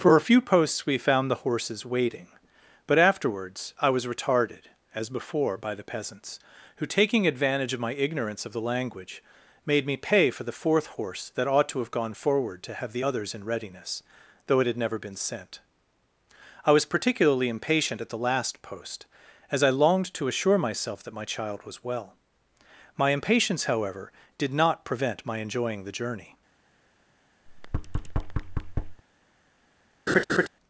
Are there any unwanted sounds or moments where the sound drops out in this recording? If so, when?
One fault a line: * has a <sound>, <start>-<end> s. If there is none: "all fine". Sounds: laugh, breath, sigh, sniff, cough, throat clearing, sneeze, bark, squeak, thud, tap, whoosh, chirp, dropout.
* has a thud, 27.5-29.0 s
* has a laugh, 30.1-30.5 s